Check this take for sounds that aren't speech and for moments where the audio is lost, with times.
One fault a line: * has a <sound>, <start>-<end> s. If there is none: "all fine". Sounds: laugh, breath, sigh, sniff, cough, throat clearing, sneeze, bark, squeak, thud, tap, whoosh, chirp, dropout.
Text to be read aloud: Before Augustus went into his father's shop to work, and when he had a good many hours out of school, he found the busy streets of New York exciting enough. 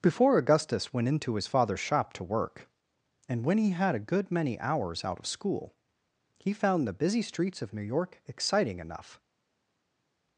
all fine